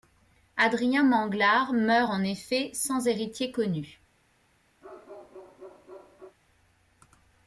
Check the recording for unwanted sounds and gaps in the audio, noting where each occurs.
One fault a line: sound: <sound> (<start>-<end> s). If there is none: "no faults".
sound: bark (4.8-6.4 s)